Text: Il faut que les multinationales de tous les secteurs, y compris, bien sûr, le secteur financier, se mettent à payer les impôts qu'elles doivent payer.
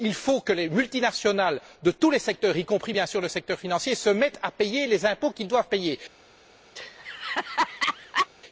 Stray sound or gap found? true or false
true